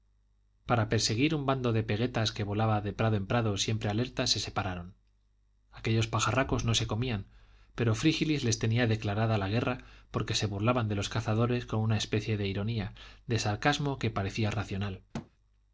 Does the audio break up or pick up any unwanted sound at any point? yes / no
yes